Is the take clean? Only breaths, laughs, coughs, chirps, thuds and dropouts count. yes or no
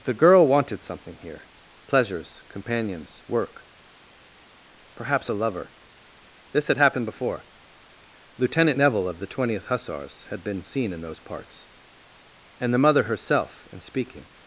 yes